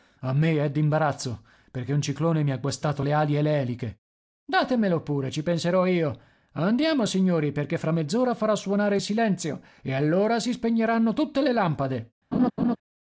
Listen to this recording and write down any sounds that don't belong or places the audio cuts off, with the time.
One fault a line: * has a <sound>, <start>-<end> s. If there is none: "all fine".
* has a laugh, 12.3-12.8 s